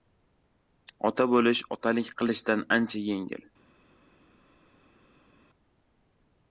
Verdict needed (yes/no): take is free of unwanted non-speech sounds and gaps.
yes